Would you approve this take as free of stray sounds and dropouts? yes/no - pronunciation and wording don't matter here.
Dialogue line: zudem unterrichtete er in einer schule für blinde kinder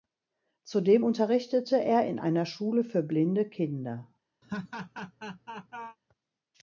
no